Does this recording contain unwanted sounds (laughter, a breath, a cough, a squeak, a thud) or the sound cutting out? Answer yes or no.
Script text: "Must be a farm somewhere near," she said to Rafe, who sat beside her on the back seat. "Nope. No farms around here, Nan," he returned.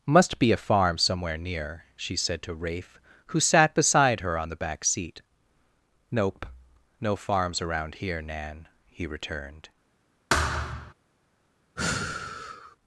yes